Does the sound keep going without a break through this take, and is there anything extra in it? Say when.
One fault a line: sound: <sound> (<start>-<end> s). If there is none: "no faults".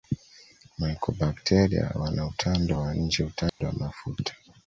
sound: dropout (3.5-3.6 s)